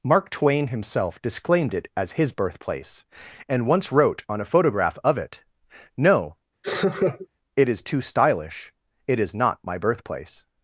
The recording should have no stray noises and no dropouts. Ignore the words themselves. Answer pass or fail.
fail